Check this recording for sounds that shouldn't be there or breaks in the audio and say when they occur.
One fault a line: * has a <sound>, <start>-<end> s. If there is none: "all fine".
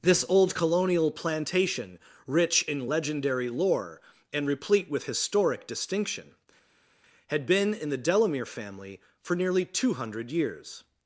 all fine